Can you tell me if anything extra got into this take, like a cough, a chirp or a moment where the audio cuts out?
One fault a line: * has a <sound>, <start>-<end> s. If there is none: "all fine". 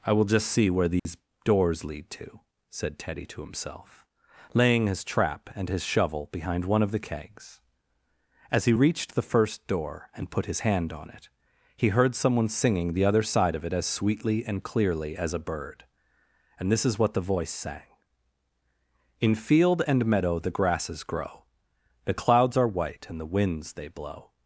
* has a dropout, 1.0-1.1 s